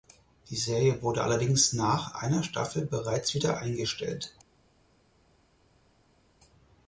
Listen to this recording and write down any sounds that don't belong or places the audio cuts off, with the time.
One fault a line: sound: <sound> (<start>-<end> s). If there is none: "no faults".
no faults